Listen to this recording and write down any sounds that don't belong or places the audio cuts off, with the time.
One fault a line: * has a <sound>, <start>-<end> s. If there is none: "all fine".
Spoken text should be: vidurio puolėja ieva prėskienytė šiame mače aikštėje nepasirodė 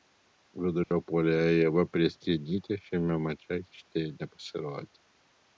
* has a dropout, 0.8-0.9 s